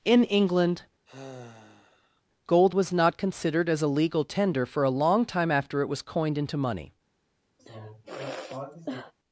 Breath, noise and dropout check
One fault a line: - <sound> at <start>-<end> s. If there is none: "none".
- sigh at 1.1-2.2 s
- sigh at 7.6-9.1 s